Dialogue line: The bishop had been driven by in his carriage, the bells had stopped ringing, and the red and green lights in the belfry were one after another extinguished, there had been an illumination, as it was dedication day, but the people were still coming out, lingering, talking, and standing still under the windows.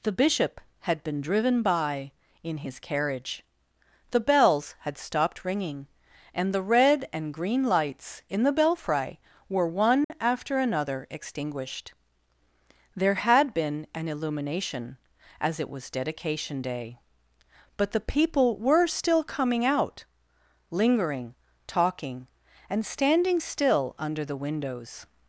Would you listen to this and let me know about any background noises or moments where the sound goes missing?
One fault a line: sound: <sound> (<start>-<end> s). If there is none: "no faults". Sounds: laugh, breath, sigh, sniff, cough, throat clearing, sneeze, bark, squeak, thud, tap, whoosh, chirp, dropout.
sound: dropout (10.0-10.1 s)